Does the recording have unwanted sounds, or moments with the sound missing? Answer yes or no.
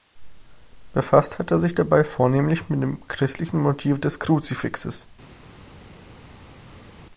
no